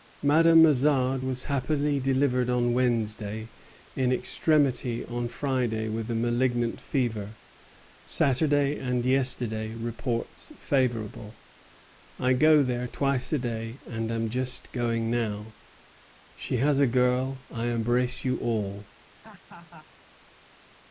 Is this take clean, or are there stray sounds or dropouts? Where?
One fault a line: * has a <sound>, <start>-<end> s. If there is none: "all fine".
* has a laugh, 19.2-19.9 s